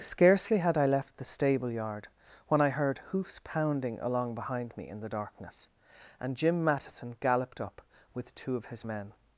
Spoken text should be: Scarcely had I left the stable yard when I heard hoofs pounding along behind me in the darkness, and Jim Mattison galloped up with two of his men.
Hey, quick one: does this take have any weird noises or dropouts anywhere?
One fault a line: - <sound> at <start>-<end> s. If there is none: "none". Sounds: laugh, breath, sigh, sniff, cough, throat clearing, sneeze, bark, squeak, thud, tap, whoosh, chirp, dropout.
none